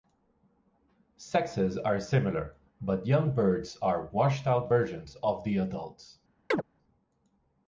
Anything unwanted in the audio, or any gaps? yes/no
yes